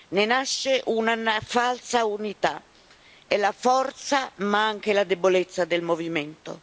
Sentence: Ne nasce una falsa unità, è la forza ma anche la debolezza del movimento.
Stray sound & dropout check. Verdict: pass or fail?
pass